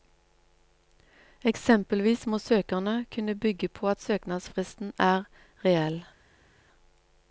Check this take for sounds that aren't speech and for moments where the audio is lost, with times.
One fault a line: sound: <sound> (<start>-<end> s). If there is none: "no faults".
no faults